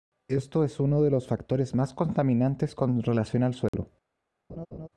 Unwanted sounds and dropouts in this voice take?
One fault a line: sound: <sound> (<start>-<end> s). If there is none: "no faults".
sound: dropout (3.7-3.7 s)
sound: laugh (4.5-4.9 s)